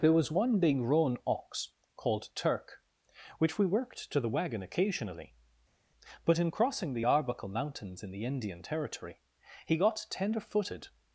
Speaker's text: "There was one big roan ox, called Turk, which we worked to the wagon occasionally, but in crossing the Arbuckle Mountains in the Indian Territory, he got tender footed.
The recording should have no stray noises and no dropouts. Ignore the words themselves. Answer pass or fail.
pass